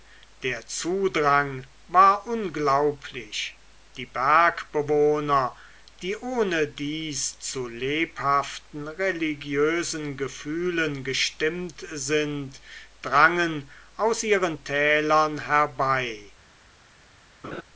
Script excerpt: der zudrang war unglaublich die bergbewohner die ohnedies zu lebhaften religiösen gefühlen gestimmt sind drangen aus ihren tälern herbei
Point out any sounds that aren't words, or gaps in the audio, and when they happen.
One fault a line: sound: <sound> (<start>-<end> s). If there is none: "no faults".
sound: laugh (17.4-17.6 s)